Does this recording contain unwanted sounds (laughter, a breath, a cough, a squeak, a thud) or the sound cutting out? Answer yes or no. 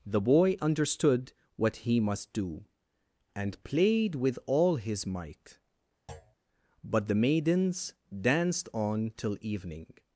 yes